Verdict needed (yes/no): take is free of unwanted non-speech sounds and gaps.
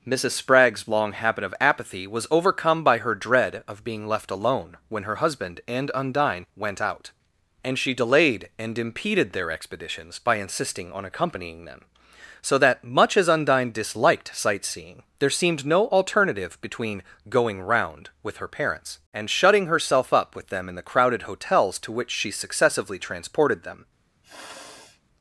no